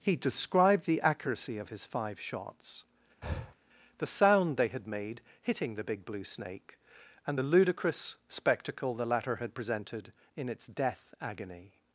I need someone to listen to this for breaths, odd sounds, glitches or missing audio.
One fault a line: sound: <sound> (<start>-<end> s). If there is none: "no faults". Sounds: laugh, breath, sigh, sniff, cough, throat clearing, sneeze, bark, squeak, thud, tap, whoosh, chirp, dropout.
sound: breath (3.2-3.5 s)